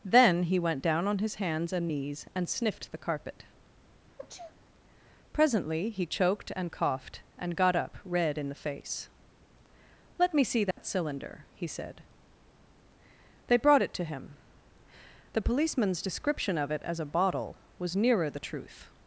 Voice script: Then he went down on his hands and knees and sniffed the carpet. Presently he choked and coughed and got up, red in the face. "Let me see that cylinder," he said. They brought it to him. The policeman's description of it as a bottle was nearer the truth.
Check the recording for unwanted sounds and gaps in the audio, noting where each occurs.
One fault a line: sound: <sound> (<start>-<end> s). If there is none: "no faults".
sound: sneeze (4.2-4.5 s)
sound: dropout (10.7-10.8 s)